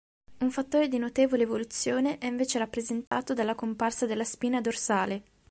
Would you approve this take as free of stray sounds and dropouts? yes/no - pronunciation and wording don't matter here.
no